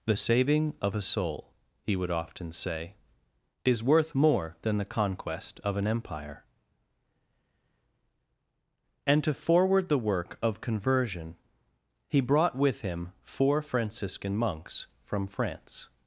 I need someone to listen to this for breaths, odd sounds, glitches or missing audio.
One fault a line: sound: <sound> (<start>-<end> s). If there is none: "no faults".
no faults